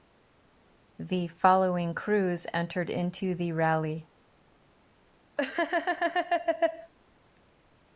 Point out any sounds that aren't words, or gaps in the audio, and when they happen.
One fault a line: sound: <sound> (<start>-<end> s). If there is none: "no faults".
sound: laugh (5.4-6.9 s)